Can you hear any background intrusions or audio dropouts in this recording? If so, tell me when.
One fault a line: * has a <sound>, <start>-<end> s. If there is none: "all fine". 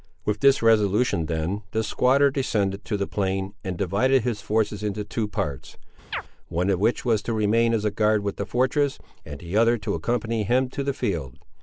* has a chirp, 6.1-6.2 s